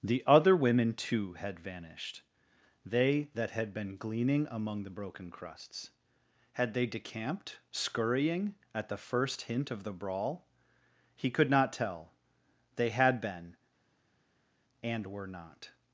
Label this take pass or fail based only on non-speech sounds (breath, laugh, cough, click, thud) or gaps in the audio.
pass